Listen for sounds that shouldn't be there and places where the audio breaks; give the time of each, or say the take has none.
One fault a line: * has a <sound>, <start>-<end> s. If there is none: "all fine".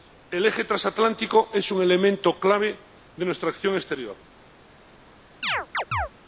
* has a chirp, 5.4-6.1 s